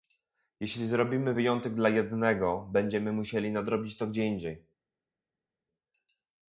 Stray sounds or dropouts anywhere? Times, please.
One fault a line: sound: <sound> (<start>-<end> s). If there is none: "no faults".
no faults